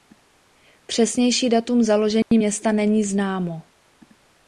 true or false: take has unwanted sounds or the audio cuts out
true